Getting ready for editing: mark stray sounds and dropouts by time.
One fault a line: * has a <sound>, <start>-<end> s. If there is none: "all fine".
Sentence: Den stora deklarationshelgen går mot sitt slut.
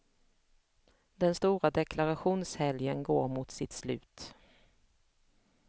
all fine